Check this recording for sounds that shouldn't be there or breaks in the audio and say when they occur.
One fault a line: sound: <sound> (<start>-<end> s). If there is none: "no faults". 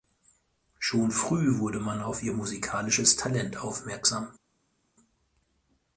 no faults